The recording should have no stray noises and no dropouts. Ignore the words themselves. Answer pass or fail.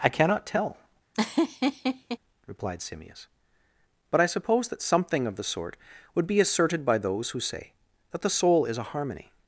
fail